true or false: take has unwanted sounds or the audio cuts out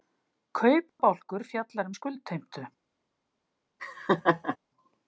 true